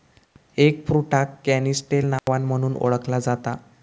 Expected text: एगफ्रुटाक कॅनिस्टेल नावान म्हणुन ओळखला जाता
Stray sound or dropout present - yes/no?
yes